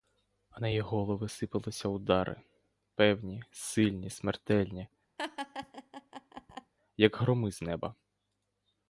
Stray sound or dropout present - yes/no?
yes